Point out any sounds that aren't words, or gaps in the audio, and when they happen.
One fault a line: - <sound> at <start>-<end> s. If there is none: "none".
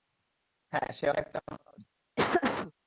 - laugh at 2.2-2.7 s